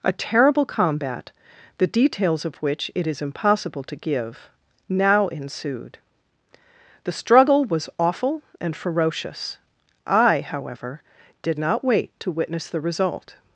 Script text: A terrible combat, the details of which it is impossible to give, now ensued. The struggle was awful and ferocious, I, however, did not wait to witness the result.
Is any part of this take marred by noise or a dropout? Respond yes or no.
no